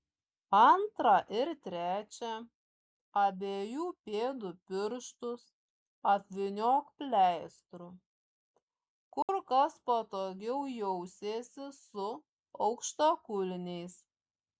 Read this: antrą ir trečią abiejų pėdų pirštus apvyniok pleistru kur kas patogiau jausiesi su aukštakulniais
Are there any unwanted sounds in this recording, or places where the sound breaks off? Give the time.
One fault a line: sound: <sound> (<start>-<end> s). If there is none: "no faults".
sound: dropout (9.2-9.3 s)